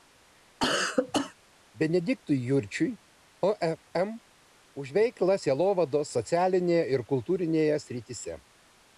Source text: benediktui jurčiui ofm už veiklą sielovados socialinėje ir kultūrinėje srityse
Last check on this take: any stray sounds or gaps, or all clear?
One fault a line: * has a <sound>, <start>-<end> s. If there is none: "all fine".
* has a cough, 0.6-1.3 s